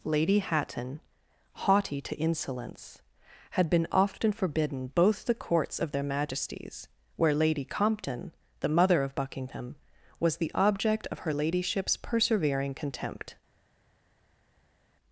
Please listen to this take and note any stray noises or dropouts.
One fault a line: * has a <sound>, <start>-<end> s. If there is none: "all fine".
all fine